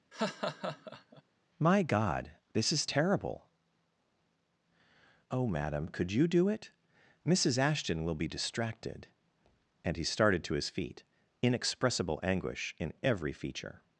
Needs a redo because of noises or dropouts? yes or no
yes